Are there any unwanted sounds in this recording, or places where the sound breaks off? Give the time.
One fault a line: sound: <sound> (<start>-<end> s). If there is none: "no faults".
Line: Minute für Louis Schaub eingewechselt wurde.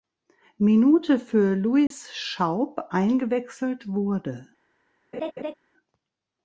sound: dropout (1.9-1.9 s)
sound: laugh (5.1-5.5 s)